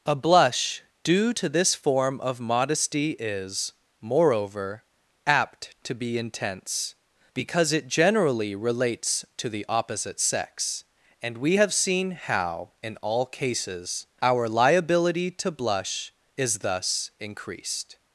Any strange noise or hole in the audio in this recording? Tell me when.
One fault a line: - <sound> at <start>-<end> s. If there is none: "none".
none